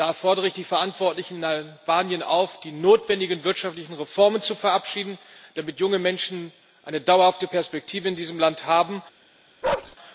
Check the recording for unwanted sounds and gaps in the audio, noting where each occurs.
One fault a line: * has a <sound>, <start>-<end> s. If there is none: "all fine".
* has a bark, 9.6-10.0 s